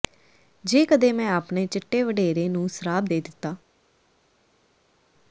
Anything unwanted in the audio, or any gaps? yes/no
no